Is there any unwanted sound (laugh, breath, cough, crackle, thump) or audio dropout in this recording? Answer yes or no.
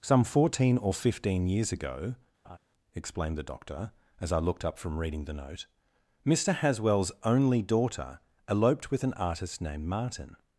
yes